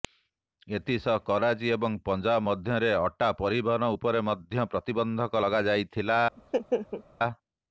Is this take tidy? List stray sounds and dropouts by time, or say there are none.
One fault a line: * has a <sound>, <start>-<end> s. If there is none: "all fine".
* has a laugh, 6.4-7.0 s